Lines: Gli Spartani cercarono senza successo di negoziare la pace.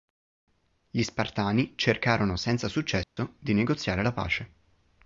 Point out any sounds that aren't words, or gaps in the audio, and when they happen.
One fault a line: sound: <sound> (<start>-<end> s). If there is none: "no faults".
sound: dropout (3.0-3.2 s)